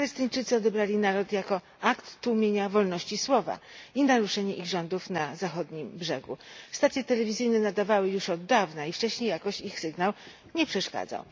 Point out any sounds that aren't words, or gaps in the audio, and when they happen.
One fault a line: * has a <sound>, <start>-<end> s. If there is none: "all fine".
all fine